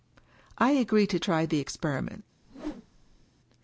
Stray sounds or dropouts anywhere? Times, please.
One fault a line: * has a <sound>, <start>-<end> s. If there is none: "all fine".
* has a whoosh, 2.4-3.3 s